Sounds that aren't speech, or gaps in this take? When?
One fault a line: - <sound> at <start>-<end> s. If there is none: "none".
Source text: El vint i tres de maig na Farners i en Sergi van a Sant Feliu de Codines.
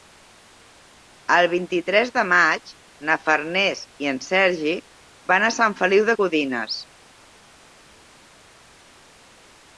none